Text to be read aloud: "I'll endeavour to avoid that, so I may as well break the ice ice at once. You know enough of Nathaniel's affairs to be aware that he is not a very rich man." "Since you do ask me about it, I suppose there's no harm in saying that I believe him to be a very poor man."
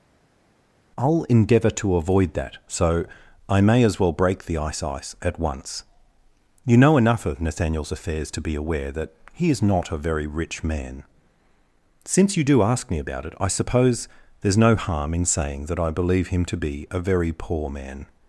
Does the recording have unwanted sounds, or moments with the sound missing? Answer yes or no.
no